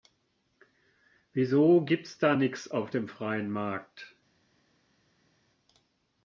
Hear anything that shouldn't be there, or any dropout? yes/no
no